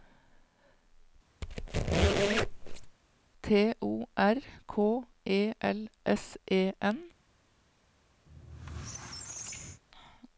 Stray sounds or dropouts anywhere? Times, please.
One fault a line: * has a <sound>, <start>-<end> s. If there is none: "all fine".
* has a squeak, 1.4-3.0 s
* has a squeak, 8.3-9.8 s